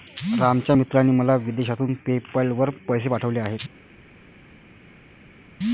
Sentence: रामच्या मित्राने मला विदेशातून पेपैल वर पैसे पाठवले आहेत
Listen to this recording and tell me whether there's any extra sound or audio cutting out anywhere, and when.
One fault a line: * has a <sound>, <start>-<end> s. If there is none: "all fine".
all fine